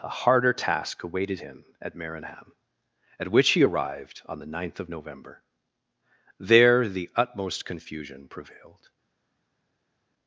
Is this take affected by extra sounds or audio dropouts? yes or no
no